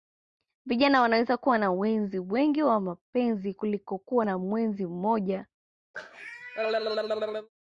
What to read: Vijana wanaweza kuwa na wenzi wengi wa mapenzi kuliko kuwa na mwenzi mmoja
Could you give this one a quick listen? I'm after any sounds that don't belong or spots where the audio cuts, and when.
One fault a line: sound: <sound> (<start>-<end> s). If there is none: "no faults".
sound: cough (5.9-7.5 s)